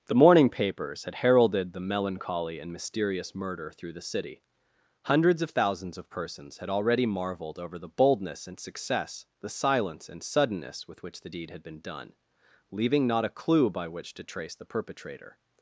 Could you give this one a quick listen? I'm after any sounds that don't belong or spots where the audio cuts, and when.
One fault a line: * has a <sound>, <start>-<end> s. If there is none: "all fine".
all fine